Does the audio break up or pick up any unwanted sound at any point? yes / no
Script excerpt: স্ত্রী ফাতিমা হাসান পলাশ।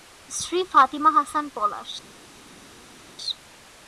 no